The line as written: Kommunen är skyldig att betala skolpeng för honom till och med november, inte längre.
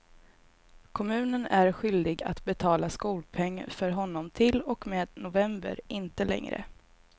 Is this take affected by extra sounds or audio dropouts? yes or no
no